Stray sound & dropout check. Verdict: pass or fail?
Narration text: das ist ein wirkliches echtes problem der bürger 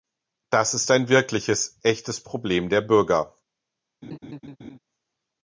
fail